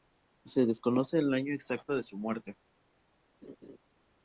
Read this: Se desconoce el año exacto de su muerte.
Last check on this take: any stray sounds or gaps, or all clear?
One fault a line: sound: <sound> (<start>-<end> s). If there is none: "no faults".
sound: laugh (3.4-3.8 s)